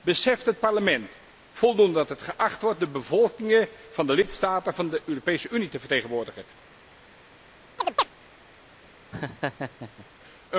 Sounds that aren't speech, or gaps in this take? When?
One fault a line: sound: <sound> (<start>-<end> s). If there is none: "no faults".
sound: chirp (7.8-8.1 s)
sound: laugh (9.1-10.1 s)